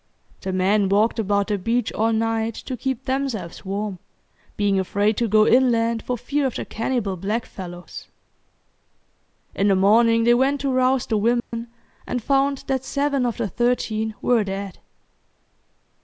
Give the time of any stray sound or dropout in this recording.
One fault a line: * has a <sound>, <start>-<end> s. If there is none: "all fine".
* has a dropout, 11.4-11.5 s